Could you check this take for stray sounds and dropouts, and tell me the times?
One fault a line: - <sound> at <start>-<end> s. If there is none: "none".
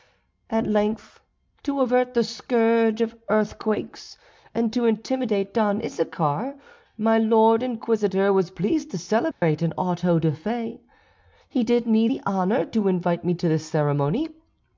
- dropout at 9.3-9.4 s